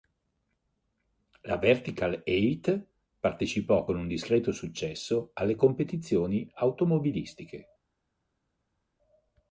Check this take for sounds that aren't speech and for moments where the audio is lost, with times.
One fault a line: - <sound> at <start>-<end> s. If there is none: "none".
none